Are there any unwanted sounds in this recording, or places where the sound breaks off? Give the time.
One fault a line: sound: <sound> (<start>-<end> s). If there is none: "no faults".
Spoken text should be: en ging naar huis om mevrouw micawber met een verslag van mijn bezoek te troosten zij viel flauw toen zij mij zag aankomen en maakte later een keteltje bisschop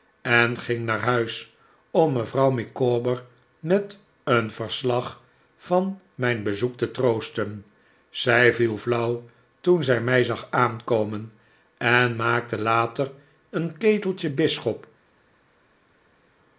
no faults